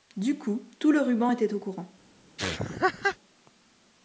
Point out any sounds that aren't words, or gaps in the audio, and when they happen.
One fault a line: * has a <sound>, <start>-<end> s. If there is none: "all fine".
* has a laugh, 2.4-3.2 s